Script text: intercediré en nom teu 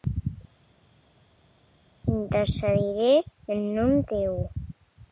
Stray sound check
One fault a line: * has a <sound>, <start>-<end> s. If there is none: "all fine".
all fine